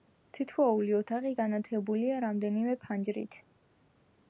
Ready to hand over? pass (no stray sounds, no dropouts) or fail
pass